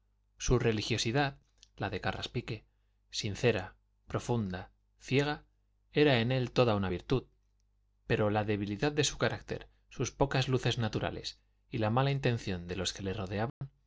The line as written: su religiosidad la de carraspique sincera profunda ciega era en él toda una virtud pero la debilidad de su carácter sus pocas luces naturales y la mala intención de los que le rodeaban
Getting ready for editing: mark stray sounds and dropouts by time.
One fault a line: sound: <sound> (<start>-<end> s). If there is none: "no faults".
sound: dropout (13.5-13.6 s)